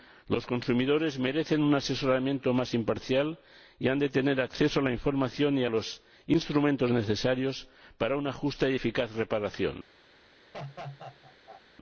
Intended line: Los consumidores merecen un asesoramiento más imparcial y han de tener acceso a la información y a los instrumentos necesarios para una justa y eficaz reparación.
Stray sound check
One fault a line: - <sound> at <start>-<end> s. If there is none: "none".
- laugh at 10.5-11.6 s